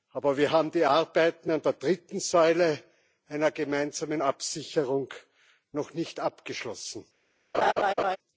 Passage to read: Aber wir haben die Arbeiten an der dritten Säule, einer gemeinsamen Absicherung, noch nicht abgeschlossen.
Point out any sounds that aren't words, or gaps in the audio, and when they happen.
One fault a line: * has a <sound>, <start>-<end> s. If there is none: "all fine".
* has a laugh, 7.5-8.2 s